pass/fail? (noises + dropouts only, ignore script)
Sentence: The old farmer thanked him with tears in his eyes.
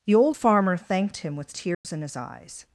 fail